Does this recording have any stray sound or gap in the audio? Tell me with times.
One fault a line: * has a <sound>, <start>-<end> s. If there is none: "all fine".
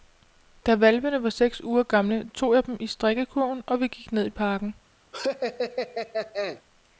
* has a laugh, 5.1-6.6 s